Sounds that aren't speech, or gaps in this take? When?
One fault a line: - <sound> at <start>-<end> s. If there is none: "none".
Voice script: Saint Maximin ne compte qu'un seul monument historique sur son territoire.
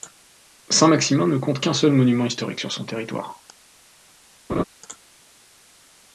- laugh at 4.5-4.6 s